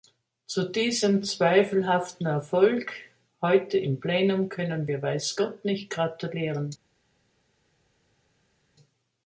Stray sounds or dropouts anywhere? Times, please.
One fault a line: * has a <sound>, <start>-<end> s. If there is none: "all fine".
all fine